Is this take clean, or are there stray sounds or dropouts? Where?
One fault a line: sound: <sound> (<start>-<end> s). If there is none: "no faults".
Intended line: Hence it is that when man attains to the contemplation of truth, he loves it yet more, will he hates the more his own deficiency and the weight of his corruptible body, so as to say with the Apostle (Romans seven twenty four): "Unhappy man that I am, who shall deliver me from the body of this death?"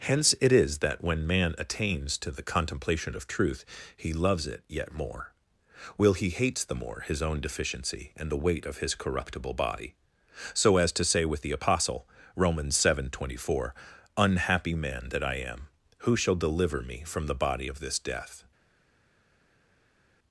no faults